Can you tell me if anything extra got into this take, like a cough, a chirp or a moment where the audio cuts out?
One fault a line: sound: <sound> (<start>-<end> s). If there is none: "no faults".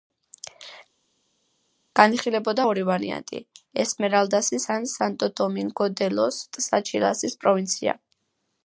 no faults